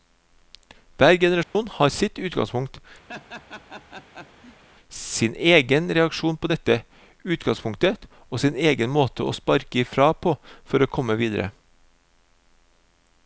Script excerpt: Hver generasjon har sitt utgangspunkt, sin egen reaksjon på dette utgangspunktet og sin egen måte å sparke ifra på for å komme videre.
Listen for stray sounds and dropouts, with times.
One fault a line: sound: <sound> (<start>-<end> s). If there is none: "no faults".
sound: dropout (1.4-1.6 s)
sound: laugh (3.1-4.6 s)